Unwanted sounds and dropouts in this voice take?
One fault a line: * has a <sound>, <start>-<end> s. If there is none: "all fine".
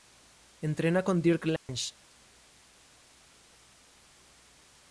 * has a dropout, 1.6-1.7 s